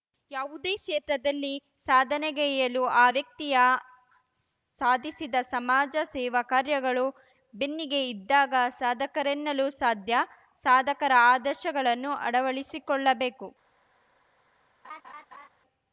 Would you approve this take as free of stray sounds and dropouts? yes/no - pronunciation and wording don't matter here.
no